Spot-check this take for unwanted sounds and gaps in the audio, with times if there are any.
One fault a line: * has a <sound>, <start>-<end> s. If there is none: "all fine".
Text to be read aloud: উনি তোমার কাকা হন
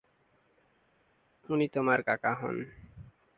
all fine